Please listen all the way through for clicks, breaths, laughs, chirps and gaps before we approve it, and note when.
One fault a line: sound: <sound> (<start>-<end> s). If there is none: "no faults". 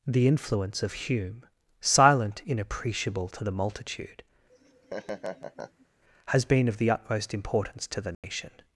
sound: laugh (4.5-5.9 s)
sound: dropout (8.1-8.2 s)